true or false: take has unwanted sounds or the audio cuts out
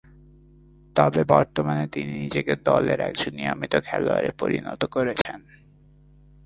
true